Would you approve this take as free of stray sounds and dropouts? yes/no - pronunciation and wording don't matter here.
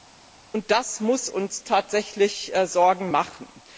yes